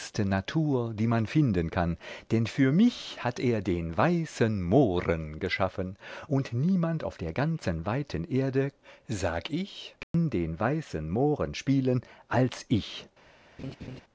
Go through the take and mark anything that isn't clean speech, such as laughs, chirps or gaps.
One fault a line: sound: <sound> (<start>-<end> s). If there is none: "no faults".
sound: dropout (10.0-10.1 s)
sound: laugh (13.6-14.0 s)